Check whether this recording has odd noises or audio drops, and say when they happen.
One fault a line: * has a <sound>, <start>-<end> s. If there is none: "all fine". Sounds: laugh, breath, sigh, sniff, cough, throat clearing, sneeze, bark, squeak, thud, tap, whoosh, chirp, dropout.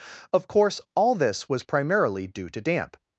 all fine